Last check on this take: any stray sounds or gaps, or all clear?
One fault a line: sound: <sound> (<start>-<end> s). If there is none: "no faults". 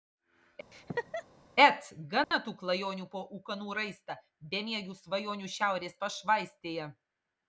sound: laugh (0.7-1.2 s)
sound: dropout (2.2-2.3 s)